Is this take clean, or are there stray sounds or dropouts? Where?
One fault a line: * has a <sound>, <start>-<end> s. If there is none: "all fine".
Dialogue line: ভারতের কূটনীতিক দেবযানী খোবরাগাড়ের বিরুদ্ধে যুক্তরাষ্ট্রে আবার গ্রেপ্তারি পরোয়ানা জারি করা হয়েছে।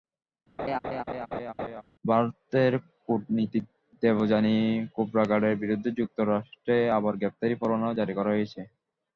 * has a laugh, 0.6-1.8 s